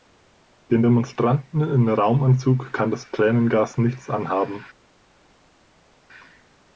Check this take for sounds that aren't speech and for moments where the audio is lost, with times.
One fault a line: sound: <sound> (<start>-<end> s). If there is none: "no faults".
no faults